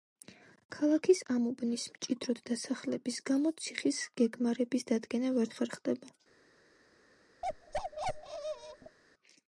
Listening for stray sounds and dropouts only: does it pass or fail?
fail